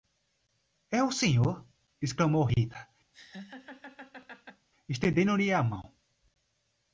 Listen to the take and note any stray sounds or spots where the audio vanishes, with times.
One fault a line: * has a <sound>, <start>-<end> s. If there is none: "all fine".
* has a laugh, 3.1-4.7 s